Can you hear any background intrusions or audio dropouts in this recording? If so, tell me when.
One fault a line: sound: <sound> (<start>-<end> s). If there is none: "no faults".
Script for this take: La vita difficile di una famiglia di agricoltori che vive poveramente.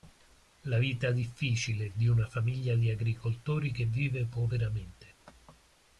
no faults